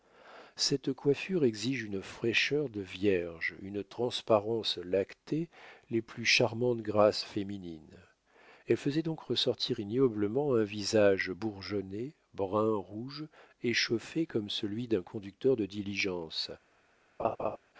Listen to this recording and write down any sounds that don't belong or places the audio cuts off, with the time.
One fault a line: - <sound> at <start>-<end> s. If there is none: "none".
- laugh at 17.2-17.6 s